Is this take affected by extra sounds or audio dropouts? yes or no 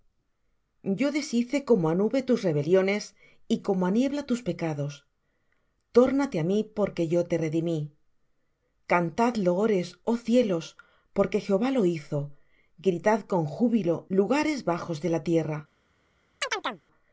yes